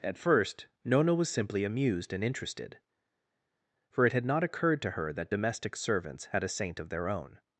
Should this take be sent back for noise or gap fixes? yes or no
no